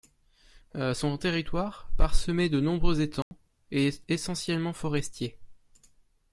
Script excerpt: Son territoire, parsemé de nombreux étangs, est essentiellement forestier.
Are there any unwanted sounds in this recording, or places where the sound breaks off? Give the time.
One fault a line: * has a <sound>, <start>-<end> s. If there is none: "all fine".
* has a dropout, 3.2-3.3 s